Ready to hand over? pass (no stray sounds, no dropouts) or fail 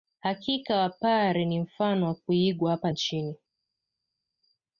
pass